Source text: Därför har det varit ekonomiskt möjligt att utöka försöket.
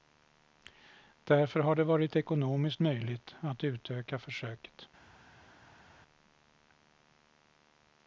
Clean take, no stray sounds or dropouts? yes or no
yes